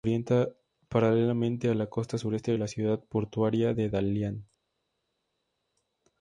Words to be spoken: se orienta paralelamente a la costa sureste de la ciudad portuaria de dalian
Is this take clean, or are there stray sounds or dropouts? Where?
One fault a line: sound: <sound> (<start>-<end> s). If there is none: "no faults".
no faults